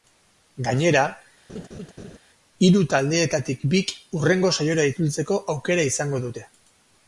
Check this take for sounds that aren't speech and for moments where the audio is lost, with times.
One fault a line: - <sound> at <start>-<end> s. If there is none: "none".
- laugh at 1.5-2.2 s